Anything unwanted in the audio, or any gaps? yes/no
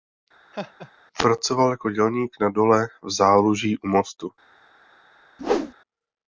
yes